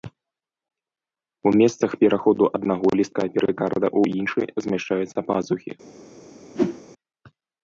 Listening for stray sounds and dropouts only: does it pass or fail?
fail